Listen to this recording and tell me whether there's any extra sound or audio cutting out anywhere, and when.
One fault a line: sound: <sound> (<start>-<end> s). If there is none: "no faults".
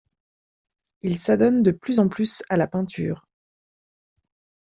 no faults